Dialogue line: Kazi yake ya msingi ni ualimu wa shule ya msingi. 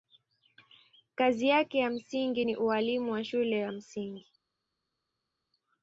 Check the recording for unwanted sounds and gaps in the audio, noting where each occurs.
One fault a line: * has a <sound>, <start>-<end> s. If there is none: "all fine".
all fine